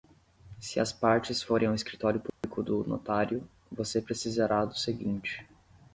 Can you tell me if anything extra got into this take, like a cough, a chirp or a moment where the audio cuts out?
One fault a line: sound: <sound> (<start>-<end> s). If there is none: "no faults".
sound: dropout (2.3-2.4 s)